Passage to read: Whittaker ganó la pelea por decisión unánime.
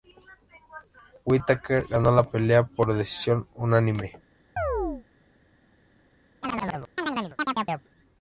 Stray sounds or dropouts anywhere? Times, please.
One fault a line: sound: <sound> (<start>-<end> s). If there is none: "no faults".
sound: chirp (4.6-5.0 s)
sound: chirp (6.4-7.9 s)